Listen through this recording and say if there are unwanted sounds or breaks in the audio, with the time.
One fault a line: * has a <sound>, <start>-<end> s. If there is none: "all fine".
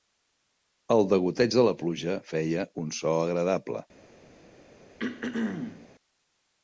* has a throat clearing, 5.0-5.9 s